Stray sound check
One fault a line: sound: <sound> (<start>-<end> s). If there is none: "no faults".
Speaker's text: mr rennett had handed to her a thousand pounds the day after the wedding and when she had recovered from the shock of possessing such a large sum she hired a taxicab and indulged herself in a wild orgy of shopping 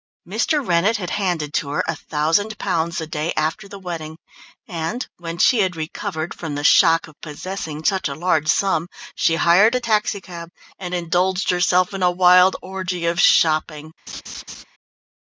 sound: laugh (14.1-14.6 s)